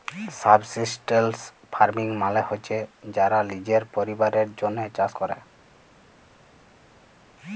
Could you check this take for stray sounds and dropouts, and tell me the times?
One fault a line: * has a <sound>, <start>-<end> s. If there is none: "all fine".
all fine